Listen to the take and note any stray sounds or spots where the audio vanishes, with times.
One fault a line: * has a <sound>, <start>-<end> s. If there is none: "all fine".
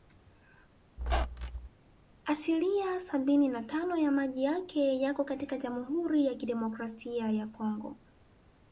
* has a squeak, 1.0-1.7 s